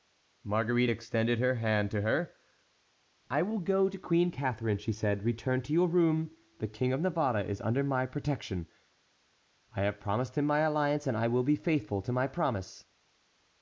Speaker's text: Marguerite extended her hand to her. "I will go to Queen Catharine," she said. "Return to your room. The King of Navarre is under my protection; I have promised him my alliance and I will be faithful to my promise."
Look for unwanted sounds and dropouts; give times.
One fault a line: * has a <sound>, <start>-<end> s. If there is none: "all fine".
all fine